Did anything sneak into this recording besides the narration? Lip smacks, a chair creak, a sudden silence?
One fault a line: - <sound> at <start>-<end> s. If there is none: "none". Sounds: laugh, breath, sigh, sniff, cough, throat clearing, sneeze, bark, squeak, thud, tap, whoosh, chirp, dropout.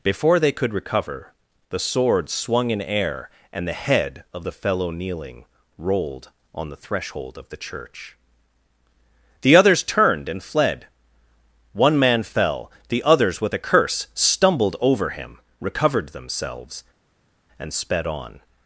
none